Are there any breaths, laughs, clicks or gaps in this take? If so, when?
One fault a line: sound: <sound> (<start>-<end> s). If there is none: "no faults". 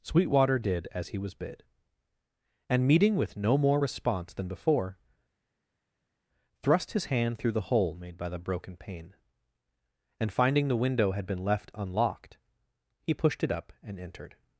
no faults